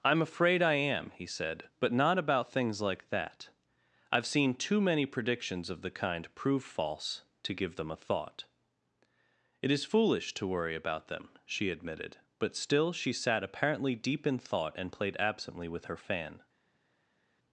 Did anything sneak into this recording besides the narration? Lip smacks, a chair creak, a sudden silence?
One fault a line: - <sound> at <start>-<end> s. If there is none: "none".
none